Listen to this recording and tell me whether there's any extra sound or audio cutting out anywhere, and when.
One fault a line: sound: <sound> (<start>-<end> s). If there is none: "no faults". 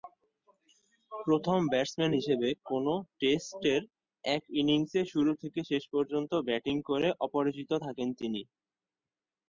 no faults